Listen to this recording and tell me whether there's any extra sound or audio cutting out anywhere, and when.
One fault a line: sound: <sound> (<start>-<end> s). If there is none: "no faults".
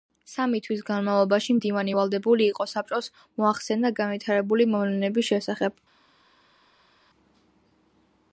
no faults